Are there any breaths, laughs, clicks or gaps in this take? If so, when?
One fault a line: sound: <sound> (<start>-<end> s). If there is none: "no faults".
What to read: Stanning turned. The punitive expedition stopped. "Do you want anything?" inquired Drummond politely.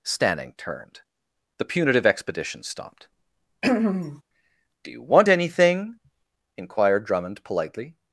sound: throat clearing (3.6-4.2 s)